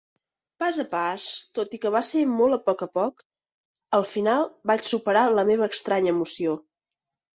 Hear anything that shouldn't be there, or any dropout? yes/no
no